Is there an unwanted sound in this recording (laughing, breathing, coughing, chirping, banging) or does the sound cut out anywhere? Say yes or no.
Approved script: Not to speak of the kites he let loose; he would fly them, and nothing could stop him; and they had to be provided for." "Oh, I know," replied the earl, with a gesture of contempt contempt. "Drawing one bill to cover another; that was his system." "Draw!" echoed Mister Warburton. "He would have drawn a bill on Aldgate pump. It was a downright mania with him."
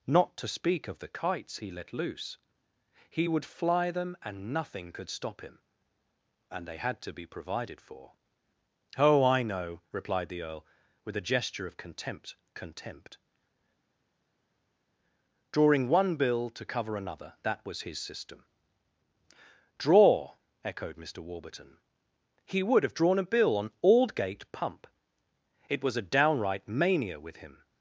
no